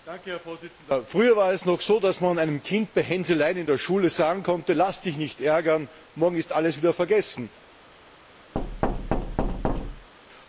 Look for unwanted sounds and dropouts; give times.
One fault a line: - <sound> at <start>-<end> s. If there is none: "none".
- thud at 8.5-10.1 s